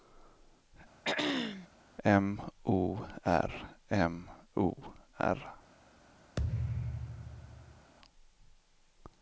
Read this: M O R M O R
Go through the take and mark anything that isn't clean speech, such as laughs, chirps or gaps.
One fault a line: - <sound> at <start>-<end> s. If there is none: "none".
- throat clearing at 1.0-1.7 s
- thud at 6.4-7.9 s